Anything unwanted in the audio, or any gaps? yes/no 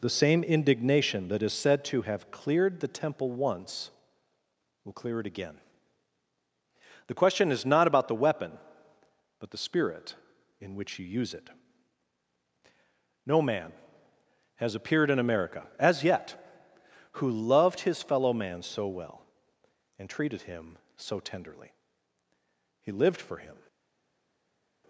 no